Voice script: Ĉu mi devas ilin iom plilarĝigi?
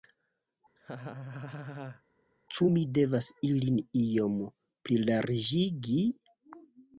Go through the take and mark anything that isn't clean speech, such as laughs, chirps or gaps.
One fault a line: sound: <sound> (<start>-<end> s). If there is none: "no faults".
sound: laugh (0.8-2.0 s)